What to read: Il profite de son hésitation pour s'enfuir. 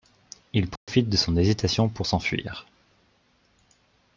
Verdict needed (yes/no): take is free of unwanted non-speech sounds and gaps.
no